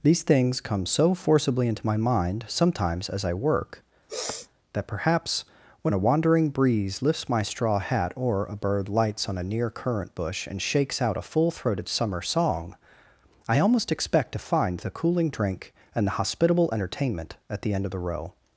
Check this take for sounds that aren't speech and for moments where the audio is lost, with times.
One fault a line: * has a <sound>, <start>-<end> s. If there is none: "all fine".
* has a sniff, 4.1-4.5 s